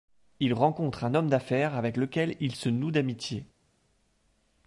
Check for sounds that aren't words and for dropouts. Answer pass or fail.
pass